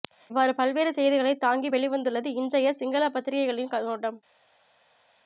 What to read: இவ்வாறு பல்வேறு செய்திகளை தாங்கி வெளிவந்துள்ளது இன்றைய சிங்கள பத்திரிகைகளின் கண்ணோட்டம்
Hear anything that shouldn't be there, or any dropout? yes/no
no